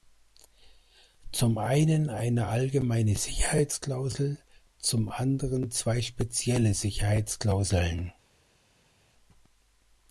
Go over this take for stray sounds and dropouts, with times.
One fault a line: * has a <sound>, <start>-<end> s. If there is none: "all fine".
all fine